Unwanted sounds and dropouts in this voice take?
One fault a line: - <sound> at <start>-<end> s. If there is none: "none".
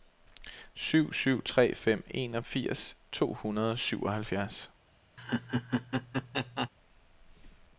- laugh at 5.2-6.7 s